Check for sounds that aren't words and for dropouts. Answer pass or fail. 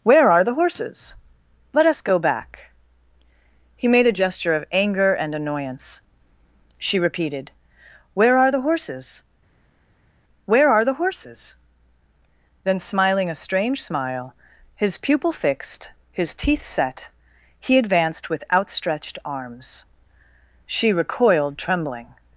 pass